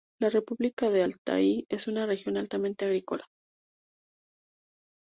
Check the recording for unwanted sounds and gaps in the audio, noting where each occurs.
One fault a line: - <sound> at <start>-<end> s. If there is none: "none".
none